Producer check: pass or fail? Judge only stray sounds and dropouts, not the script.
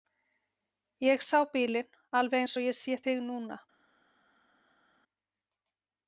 pass